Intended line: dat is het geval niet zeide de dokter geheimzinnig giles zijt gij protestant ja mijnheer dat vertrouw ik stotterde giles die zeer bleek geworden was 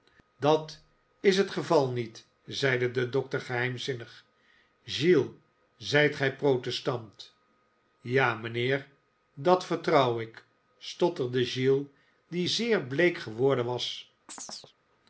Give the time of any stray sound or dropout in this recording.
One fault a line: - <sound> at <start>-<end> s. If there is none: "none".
- chirp at 14.3-14.7 s